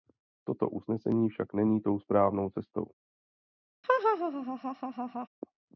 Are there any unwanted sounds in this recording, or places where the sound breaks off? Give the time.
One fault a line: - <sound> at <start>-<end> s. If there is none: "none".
- laugh at 3.8-5.3 s